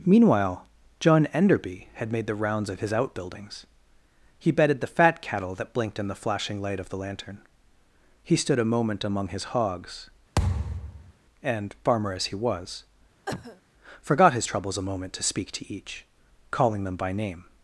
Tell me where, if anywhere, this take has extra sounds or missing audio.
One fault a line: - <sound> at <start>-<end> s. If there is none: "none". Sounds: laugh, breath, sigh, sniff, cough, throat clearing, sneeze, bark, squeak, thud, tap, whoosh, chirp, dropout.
- thud at 10.4-11.1 s
- cough at 13.3-13.6 s